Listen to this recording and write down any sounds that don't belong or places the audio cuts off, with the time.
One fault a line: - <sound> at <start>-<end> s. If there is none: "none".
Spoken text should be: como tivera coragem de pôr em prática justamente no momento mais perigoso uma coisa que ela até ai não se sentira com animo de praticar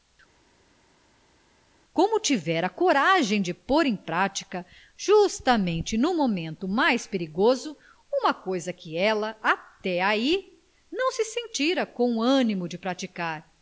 none